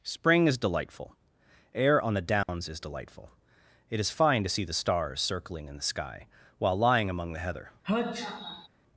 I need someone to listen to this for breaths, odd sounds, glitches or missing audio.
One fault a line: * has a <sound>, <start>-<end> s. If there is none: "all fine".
* has a dropout, 2.4-2.5 s
* has a sneeze, 7.8-8.7 s